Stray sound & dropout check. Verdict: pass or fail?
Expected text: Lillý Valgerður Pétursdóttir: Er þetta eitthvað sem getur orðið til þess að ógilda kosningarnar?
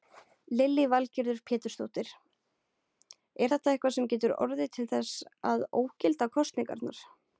pass